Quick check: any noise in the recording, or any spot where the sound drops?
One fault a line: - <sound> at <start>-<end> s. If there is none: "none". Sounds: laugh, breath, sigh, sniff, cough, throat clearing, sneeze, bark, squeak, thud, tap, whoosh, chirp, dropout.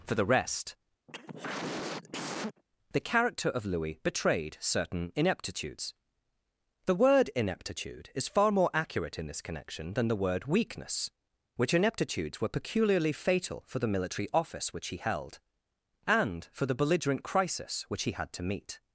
- cough at 1.1-2.6 s